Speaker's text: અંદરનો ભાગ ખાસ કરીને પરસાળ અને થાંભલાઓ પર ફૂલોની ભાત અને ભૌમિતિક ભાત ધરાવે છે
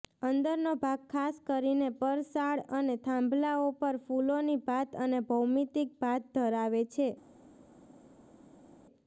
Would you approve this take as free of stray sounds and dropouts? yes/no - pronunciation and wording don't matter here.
yes